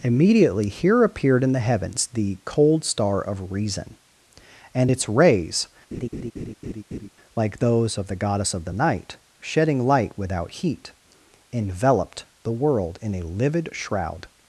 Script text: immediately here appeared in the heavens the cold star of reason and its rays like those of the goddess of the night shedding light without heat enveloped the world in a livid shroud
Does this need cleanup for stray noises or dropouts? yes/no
yes